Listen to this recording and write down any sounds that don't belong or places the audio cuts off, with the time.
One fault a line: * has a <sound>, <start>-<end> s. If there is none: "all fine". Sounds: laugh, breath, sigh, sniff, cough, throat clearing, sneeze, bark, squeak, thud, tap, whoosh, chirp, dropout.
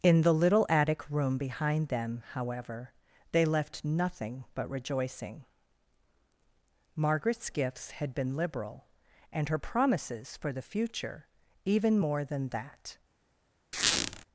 * has a squeak, 13.7-14.2 s